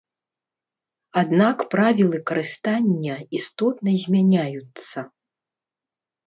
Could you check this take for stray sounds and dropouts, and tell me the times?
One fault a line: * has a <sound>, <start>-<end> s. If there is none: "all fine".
all fine